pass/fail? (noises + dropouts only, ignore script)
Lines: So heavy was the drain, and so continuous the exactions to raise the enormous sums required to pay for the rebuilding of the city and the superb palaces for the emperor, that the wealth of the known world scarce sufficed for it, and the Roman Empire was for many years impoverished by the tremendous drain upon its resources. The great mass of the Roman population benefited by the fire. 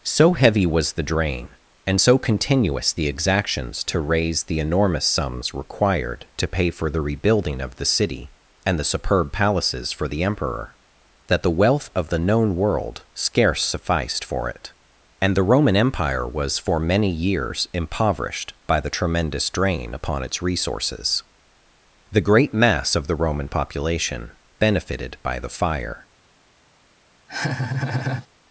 fail